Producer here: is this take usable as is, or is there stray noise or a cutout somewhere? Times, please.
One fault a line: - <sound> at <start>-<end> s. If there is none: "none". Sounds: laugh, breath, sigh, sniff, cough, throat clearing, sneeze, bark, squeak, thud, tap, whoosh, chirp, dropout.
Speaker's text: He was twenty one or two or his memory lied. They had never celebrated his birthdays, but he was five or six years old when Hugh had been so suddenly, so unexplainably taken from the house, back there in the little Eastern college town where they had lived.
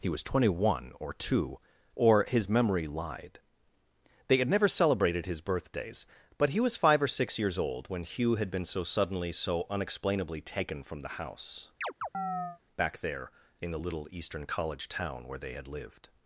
- chirp at 11.8-12.6 s